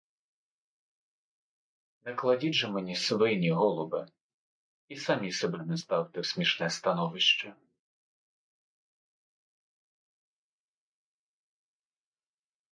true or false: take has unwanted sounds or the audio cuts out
false